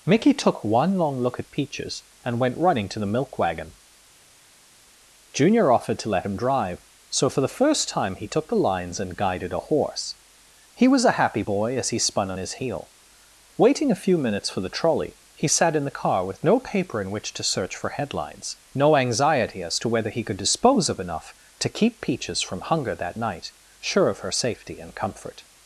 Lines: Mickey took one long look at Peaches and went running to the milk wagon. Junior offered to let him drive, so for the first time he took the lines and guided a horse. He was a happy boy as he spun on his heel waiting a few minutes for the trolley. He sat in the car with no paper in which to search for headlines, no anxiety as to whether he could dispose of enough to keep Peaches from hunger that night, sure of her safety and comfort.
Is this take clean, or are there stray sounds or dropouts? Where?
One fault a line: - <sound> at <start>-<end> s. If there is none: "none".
none